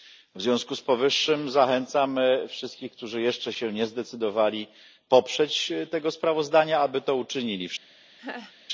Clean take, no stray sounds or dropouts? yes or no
no